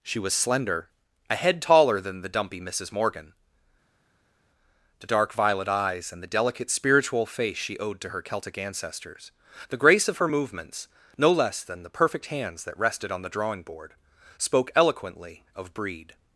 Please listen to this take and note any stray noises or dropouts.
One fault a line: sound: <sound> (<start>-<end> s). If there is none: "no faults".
no faults